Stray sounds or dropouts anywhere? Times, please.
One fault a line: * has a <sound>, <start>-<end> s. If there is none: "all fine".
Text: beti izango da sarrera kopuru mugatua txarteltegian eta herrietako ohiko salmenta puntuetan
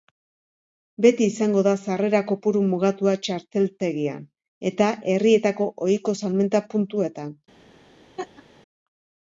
* has a laugh, 8.2-8.4 s